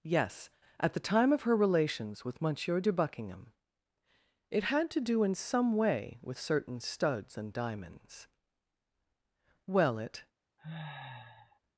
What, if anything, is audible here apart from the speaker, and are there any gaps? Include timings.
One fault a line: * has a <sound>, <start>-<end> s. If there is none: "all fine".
* has a sniff, 10.6-11.6 s